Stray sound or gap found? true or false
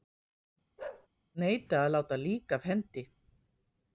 true